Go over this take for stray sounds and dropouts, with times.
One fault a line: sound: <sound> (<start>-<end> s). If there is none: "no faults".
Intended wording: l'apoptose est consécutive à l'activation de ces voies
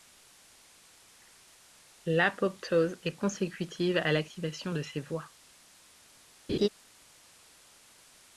sound: laugh (6.5-6.7 s)